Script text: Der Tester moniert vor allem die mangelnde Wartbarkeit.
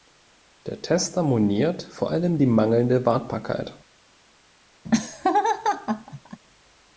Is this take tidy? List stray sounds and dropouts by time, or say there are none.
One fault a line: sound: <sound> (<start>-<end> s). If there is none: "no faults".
sound: laugh (4.8-6.4 s)